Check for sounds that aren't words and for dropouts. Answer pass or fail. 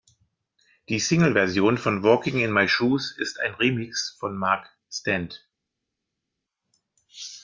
pass